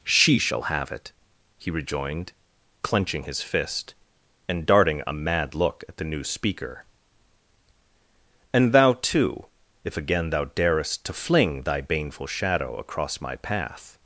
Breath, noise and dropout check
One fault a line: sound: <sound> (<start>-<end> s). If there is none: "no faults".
no faults